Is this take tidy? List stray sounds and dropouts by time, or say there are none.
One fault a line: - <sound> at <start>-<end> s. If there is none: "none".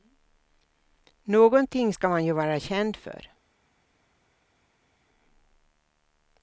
none